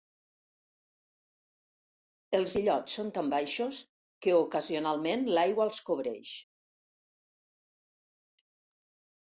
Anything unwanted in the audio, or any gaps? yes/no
no